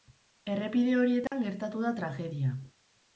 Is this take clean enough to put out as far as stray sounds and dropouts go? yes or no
no